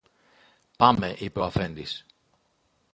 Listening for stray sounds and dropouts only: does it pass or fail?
pass